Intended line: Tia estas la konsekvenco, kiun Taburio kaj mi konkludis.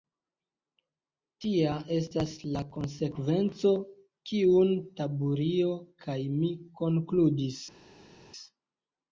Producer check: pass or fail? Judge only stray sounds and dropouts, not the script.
pass